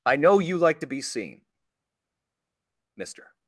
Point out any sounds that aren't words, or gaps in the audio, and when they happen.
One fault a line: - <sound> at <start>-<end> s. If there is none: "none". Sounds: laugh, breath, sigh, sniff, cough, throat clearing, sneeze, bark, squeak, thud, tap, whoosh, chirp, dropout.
none